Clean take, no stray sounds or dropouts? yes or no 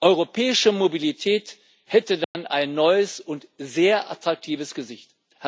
no